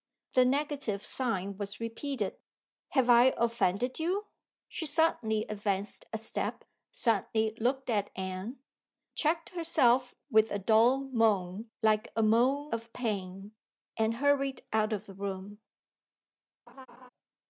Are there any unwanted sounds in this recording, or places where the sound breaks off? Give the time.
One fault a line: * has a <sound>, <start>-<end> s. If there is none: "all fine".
* has a laugh, 16.7-17.1 s